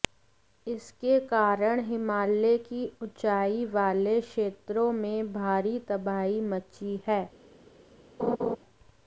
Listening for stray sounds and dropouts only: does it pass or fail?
fail